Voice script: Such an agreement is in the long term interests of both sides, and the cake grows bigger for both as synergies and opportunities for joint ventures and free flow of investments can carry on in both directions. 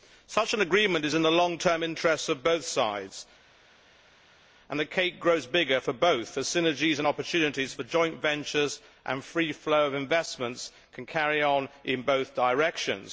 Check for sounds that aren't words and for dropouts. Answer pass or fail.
pass